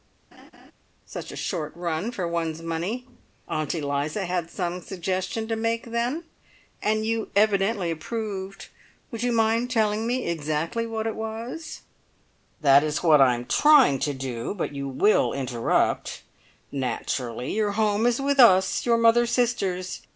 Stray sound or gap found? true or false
true